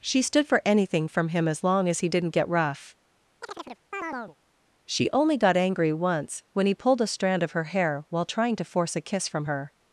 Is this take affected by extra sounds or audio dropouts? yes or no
yes